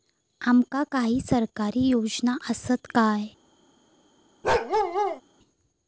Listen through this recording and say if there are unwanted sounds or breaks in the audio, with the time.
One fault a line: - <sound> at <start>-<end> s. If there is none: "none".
- bark at 4.4-5.2 s